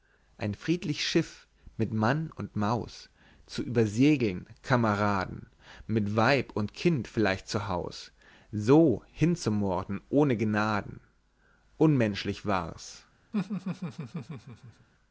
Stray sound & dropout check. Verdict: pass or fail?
fail